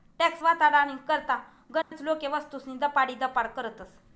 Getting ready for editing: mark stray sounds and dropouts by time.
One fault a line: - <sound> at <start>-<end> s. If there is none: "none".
- dropout at 1.8-1.9 s